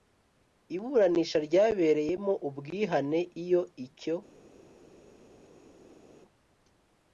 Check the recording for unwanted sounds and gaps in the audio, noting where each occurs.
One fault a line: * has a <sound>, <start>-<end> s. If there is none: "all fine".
all fine